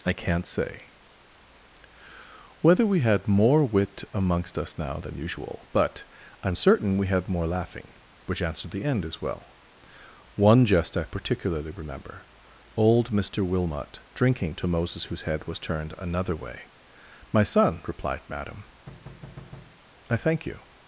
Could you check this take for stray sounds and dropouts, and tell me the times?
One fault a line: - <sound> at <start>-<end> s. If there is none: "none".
- thud at 18.9-19.8 s